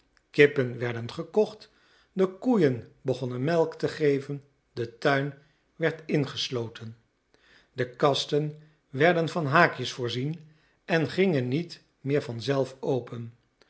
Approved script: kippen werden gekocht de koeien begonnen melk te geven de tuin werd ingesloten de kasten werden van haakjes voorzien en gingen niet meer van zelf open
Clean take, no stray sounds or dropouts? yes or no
yes